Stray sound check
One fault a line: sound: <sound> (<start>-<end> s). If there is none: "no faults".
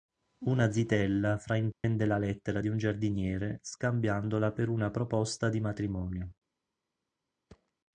sound: dropout (1.7-1.8 s)
sound: thud (7.5-7.7 s)